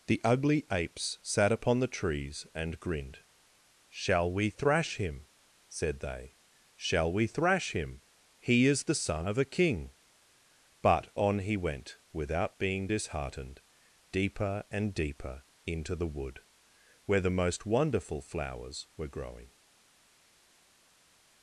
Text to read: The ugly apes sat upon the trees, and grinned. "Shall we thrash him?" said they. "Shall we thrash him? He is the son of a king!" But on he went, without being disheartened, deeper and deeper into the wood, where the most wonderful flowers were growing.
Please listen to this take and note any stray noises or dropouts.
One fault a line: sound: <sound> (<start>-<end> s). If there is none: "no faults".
no faults